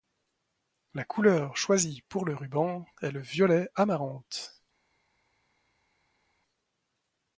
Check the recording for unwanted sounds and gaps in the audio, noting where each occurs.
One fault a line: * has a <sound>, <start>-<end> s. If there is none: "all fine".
all fine